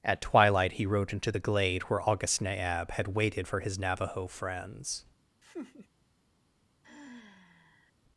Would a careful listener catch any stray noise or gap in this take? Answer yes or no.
yes